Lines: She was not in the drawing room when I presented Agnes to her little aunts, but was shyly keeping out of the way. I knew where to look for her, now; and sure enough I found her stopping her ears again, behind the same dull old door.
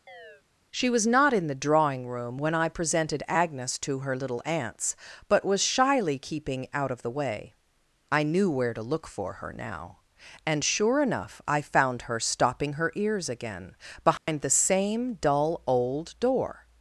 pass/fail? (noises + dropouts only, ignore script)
fail